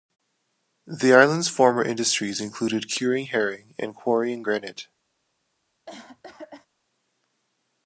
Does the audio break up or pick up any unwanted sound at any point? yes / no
yes